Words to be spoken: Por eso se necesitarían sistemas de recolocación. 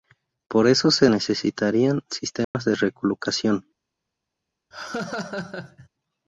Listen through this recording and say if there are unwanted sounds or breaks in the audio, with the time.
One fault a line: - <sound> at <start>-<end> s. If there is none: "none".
- dropout at 2.4-2.5 s
- laugh at 4.7-5.9 s